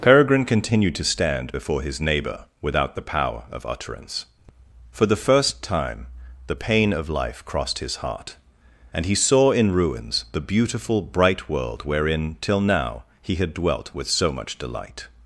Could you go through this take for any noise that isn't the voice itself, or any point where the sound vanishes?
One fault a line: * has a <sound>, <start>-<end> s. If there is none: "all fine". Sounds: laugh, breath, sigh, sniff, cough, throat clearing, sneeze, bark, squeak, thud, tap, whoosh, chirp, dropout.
all fine